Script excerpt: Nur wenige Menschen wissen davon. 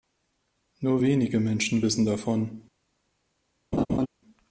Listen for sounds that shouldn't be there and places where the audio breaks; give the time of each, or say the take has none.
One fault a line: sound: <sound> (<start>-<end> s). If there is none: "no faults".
sound: laugh (3.7-4.1 s)